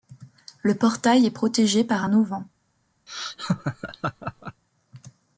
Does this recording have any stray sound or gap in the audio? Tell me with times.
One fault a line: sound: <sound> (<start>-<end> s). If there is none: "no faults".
sound: laugh (3.1-4.6 s)